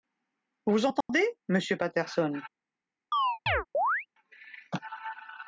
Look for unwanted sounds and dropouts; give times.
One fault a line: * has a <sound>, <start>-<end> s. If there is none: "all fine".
* has a dropout, 1.0-1.1 s
* has a chirp, 3.1-4.1 s